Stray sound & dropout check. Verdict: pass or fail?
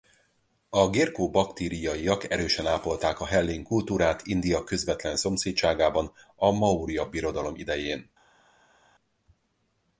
pass